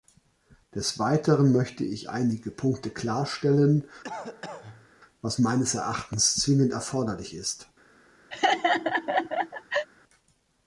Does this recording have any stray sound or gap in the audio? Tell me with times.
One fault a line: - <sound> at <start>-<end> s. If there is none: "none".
- cough at 4.0-4.9 s
- laugh at 8.3-9.9 s